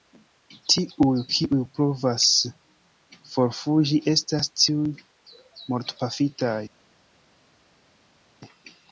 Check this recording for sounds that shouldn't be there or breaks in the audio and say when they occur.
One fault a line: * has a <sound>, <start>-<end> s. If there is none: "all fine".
all fine